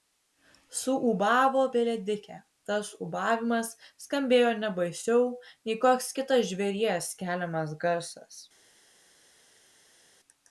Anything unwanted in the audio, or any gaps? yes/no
no